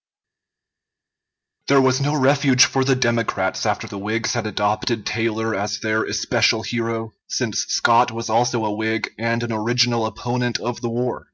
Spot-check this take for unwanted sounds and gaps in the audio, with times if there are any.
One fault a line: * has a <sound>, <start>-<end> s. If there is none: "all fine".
all fine